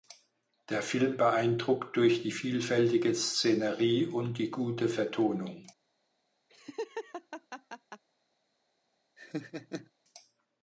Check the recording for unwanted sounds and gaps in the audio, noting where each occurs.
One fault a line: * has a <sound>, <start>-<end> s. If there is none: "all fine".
* has a laugh, 6.5-8.0 s
* has a laugh, 9.2-9.9 s